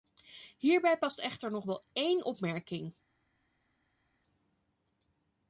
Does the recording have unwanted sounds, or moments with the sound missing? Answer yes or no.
no